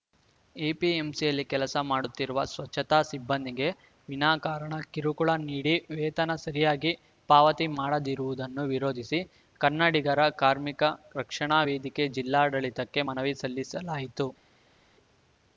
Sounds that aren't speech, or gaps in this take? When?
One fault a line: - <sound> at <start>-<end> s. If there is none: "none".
none